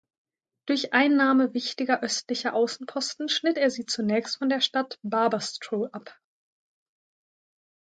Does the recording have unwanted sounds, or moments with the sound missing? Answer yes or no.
no